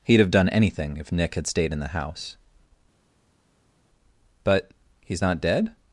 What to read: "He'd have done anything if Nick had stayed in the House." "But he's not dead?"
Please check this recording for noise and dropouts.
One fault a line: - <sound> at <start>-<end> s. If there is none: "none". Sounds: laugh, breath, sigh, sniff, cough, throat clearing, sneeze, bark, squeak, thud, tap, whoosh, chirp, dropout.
none